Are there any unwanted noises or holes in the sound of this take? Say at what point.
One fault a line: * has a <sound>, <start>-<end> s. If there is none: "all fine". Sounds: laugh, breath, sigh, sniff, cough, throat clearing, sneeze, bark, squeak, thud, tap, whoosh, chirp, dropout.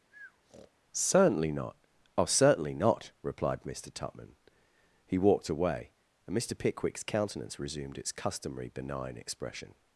* has a breath, 0.1-0.7 s